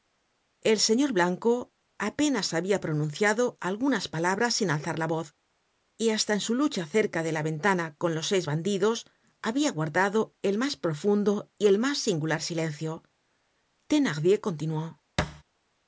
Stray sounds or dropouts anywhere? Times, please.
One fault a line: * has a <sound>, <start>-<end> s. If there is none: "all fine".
* has a thud, 15.2-15.4 s